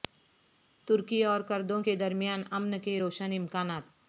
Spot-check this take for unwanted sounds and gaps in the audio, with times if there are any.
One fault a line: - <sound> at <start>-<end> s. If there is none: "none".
none